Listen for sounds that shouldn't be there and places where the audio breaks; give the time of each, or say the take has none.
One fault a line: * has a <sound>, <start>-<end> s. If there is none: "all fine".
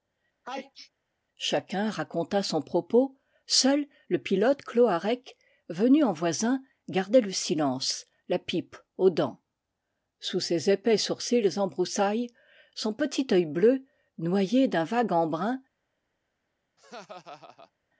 * has a sneeze, 0.4-0.9 s
* has a laugh, 16.8-17.7 s